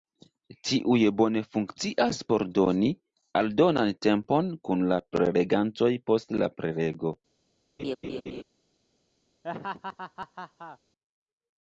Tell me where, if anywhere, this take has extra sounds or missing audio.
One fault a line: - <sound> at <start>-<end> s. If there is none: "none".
- laugh at 7.8-8.4 s
- laugh at 9.4-10.8 s